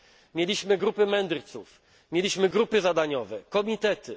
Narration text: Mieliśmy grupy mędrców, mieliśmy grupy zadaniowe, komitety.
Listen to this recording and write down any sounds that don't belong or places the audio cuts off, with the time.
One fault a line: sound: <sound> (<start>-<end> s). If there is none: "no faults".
no faults